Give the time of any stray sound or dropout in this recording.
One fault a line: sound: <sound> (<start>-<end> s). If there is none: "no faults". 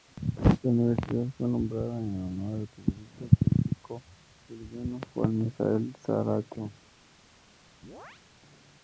sound: chirp (7.8-8.2 s)